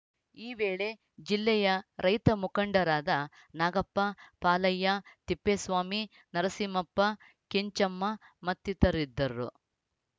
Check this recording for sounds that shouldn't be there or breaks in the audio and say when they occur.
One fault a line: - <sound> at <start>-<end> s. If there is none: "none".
none